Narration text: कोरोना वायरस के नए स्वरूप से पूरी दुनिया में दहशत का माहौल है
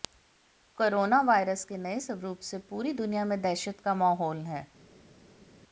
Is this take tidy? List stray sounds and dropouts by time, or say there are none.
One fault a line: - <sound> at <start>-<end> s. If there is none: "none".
none